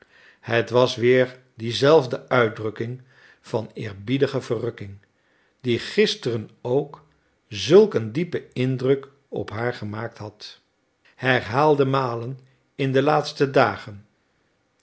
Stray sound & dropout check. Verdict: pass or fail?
pass